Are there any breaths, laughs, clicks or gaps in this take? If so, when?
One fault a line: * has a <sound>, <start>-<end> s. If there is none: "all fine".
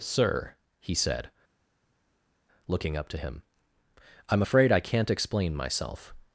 all fine